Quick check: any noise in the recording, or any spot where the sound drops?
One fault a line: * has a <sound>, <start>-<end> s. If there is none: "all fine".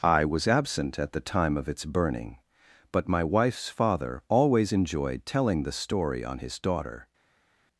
all fine